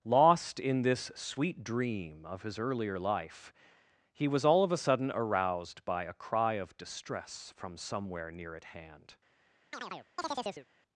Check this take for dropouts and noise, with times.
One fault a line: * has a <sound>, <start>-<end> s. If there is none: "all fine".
* has a chirp, 9.7-10.7 s